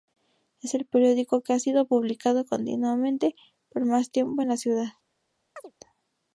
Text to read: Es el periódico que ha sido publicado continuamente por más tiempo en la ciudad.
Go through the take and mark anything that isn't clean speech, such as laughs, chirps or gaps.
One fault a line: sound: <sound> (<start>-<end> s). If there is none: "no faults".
sound: chirp (5.6-5.7 s)